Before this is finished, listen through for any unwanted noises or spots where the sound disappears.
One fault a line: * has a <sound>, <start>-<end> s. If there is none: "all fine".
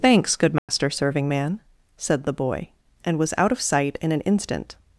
* has a dropout, 0.6-0.7 s